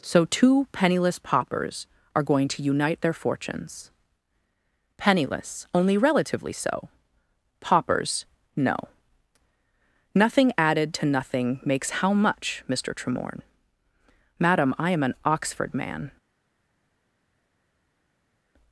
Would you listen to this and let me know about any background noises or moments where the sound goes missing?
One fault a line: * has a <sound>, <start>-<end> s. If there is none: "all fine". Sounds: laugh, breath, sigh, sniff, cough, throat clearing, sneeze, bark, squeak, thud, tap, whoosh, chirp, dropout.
all fine